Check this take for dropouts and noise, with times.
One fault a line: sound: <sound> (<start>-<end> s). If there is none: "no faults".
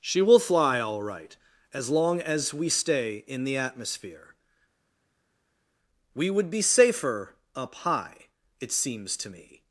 no faults